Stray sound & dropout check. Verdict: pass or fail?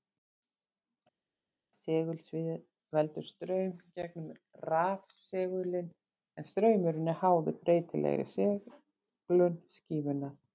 pass